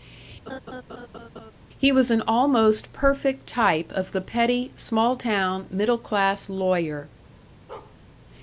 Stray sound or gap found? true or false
true